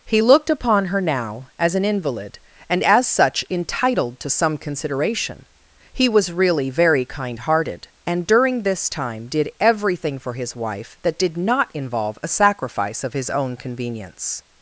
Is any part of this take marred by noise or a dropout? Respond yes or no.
no